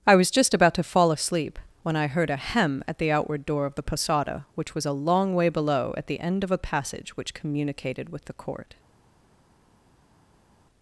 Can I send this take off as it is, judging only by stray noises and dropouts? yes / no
yes